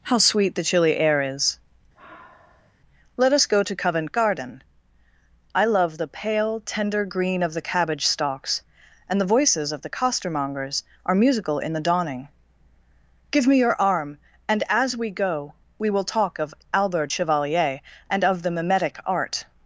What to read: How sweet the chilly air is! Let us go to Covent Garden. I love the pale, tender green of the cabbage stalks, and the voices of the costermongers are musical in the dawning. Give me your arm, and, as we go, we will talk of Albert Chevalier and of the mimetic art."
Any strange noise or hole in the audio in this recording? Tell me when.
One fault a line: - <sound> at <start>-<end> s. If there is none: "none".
- sigh at 1.9-2.7 s